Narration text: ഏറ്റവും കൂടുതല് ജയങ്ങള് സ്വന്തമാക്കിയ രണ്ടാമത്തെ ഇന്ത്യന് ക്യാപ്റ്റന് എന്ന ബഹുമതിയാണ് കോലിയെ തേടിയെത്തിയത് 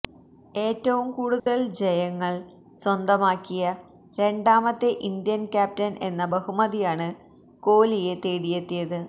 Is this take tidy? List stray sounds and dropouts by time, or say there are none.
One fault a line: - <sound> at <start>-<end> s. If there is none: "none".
- dropout at 1.4-1.5 s